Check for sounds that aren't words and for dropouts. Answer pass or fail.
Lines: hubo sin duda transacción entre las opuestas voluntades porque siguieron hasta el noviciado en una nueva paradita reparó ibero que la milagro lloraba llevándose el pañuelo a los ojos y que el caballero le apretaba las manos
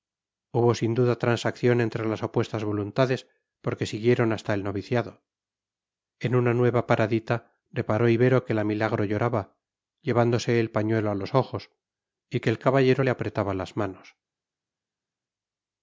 pass